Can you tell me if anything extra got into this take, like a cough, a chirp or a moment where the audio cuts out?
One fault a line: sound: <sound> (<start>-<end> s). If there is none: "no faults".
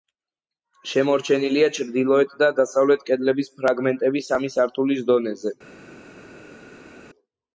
no faults